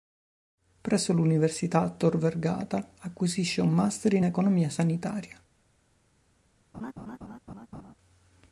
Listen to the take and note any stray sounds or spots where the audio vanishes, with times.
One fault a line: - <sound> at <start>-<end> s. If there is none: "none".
- laugh at 6.7-8.0 s